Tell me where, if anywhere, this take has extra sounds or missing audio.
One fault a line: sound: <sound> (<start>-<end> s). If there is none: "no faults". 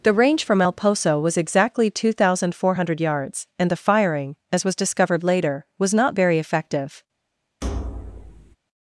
sound: thud (7.6-8.6 s)